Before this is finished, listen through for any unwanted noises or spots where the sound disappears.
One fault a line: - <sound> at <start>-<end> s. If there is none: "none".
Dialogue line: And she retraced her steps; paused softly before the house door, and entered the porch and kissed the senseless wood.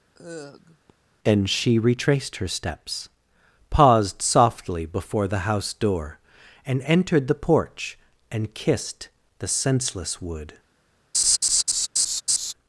- sigh at 0.1-0.9 s
- laugh at 11.1-12.5 s